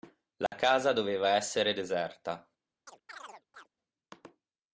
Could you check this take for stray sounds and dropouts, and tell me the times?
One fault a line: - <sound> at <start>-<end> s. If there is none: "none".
- dropout at 0.5-0.5 s
- chirp at 2.9-3.7 s